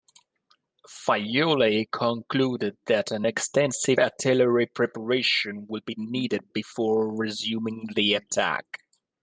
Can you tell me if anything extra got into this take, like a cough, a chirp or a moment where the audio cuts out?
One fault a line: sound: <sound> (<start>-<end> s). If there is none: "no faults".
no faults